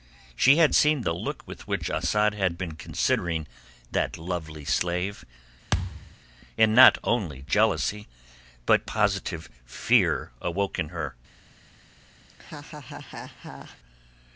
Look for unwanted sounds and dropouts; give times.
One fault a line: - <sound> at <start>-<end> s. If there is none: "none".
- thud at 5.7-6.2 s
- laugh at 12.3-13.8 s